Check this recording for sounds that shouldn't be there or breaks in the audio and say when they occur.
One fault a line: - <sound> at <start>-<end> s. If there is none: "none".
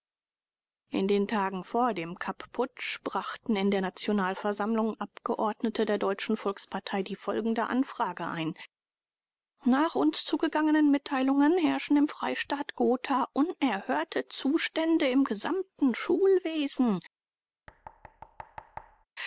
- thud at 17.7-19.1 s